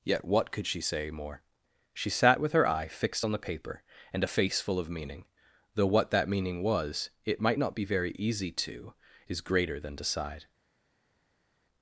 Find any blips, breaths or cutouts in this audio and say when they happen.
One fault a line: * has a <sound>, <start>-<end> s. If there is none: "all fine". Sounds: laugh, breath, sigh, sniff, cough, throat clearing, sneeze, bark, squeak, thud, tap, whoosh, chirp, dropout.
all fine